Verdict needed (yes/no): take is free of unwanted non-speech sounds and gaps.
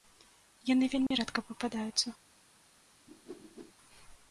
no